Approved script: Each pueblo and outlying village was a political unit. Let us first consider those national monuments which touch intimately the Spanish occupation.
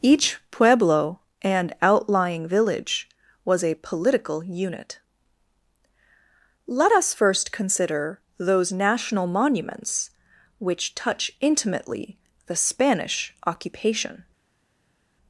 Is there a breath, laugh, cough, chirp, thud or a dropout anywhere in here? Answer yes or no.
no